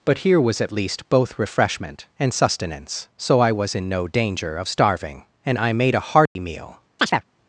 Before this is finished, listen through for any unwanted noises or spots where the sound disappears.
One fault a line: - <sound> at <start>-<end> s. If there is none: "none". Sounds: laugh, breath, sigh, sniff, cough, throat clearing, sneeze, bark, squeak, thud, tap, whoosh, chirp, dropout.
- dropout at 6.3-6.4 s
- chirp at 7.0-7.2 s